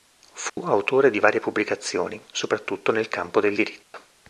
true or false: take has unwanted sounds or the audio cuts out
true